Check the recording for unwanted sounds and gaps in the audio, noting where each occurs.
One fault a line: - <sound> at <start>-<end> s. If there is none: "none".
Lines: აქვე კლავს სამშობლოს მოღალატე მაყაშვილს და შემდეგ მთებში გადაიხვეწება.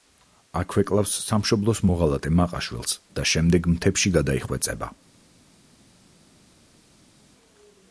none